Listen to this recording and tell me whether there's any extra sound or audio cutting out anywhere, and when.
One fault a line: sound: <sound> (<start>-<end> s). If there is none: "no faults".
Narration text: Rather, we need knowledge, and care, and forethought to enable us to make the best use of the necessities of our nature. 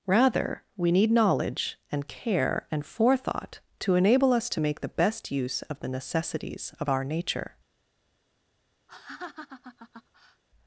sound: laugh (8.9-10.4 s)